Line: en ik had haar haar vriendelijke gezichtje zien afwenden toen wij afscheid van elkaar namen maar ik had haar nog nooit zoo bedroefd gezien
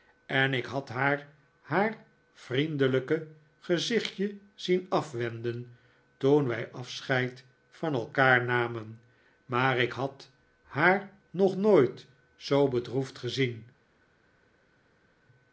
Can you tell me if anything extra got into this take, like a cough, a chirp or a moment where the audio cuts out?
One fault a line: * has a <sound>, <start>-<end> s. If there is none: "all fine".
all fine